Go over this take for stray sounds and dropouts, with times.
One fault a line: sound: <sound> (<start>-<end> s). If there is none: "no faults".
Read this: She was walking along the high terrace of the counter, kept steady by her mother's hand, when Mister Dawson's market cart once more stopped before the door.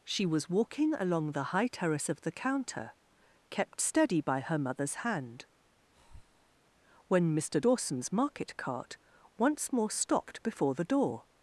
sound: breath (5.9-6.6 s)